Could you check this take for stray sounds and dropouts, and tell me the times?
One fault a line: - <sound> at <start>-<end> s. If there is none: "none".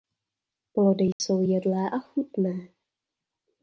- dropout at 1.1-1.2 s